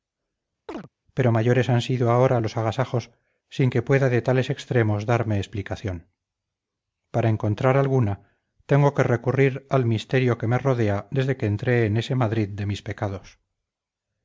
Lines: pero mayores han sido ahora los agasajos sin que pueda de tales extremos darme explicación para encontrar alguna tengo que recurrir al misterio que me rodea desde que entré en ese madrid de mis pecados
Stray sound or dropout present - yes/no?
yes